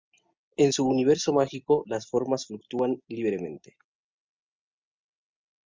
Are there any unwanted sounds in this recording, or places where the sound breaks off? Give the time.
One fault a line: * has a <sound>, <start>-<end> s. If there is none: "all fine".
all fine